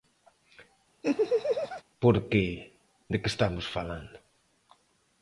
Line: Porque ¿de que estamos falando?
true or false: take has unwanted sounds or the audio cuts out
true